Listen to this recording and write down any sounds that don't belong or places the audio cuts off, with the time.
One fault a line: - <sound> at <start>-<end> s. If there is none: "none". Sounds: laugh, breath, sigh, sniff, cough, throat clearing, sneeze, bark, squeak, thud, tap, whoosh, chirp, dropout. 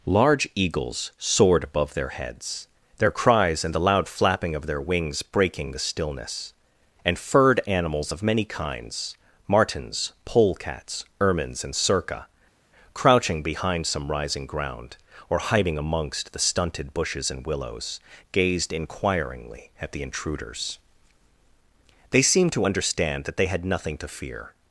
none